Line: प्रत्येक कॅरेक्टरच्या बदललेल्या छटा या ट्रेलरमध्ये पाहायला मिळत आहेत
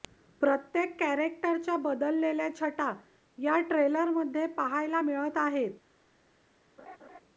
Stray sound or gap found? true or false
true